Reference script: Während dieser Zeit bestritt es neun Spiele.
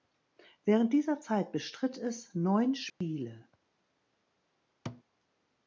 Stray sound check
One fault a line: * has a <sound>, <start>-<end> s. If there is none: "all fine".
* has a dropout, 2.9-3.0 s
* has a thud, 4.9-5.0 s